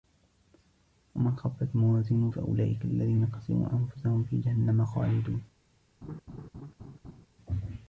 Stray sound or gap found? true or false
true